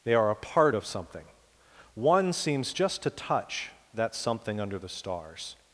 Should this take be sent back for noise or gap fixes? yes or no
no